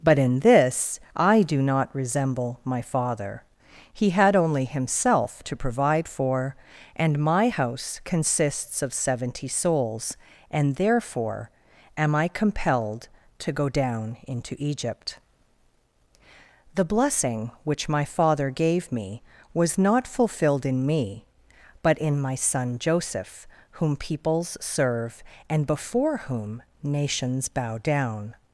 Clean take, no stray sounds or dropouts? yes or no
yes